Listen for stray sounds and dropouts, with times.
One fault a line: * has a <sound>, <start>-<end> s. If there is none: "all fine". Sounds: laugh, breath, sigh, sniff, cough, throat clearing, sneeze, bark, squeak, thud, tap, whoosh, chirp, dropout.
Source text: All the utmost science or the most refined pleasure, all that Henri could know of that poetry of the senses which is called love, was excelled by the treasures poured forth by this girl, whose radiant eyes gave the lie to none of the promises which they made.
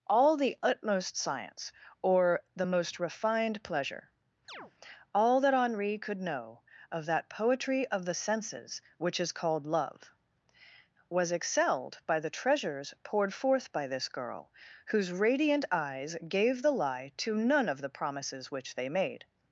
* has a chirp, 4.5-4.7 s